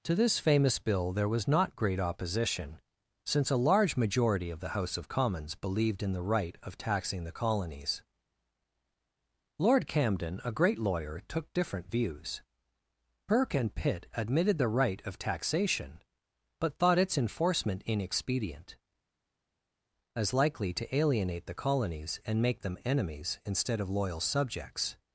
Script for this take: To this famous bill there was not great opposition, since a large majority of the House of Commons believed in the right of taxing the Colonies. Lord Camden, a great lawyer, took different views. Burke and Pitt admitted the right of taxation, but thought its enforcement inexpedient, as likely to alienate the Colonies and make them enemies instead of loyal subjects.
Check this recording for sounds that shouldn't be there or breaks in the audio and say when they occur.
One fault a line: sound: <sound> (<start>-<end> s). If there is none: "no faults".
no faults